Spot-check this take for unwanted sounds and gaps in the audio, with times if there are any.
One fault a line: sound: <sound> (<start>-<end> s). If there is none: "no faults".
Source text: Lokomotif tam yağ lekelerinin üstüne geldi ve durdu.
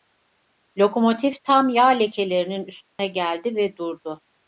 sound: dropout (2.9-3.0 s)